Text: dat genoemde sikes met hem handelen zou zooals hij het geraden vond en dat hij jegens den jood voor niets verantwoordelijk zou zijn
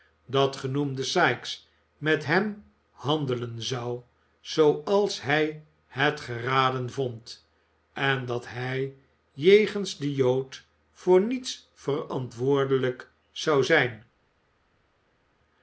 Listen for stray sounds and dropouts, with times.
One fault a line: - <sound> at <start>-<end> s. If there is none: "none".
none